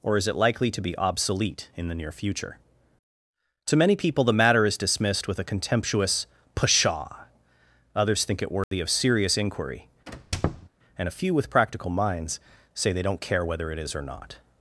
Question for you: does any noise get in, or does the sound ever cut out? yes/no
yes